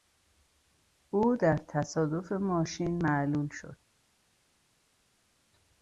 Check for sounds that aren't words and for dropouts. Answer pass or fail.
pass